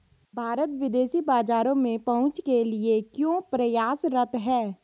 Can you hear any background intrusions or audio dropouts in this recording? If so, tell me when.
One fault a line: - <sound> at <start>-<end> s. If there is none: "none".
none